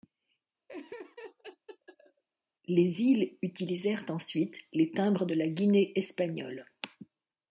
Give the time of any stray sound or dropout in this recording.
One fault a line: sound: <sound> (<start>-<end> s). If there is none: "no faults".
sound: laugh (0.7-2.2 s)